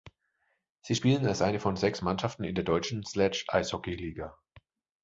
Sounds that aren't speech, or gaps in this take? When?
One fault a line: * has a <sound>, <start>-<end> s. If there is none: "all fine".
all fine